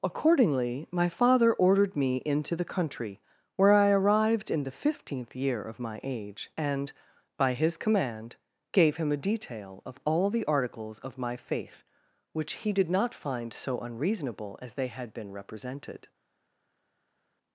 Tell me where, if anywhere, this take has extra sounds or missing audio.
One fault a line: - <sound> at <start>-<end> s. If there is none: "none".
none